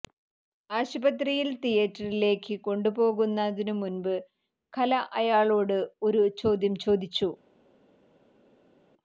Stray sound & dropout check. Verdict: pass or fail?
pass